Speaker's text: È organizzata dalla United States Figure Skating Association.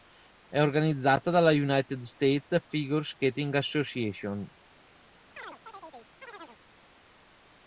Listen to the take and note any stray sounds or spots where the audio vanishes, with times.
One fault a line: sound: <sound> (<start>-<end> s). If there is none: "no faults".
sound: chirp (5.4-6.6 s)